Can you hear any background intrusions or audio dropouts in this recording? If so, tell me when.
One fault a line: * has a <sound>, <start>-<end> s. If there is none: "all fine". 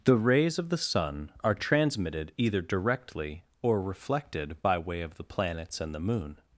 all fine